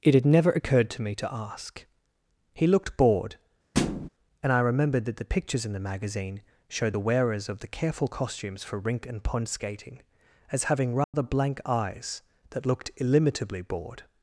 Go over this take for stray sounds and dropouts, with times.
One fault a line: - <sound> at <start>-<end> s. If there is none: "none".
- thud at 3.7-4.1 s
- dropout at 11.0-11.1 s